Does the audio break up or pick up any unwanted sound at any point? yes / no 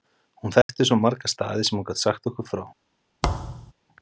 yes